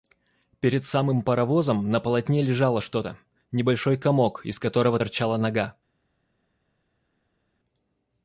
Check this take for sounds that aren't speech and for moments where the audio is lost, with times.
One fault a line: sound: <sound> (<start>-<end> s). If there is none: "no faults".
no faults